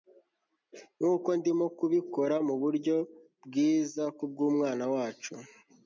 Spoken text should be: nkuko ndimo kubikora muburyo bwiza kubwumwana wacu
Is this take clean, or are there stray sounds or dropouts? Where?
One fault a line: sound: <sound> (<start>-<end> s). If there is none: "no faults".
no faults